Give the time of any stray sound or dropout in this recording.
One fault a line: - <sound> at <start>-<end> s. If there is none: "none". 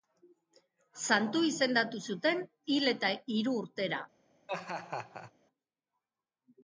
- laugh at 4.5-5.3 s